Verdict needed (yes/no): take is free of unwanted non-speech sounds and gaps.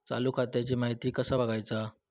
yes